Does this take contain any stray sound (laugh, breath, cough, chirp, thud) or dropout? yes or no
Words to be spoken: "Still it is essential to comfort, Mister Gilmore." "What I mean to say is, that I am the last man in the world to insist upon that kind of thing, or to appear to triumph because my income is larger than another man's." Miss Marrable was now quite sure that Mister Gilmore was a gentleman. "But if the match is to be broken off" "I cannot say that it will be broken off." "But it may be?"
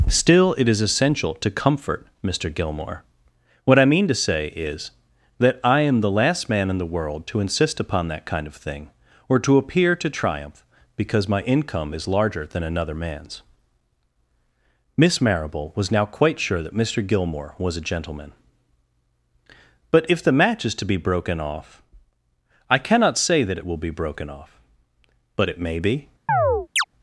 yes